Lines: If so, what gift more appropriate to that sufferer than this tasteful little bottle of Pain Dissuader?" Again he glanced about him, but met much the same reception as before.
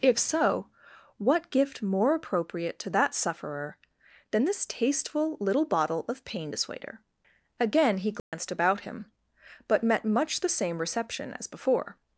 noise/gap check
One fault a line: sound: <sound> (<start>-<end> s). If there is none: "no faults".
sound: dropout (8.2-8.3 s)